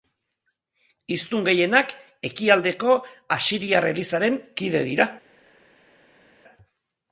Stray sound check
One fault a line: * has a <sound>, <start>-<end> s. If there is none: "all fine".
all fine